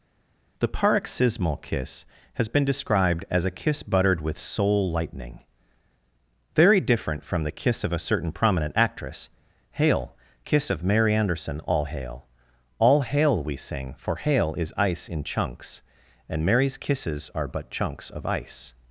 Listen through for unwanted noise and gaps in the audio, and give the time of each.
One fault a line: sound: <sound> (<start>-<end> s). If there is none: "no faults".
no faults